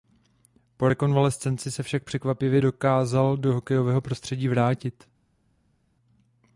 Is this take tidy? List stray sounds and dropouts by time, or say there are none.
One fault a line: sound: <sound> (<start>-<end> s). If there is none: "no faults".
no faults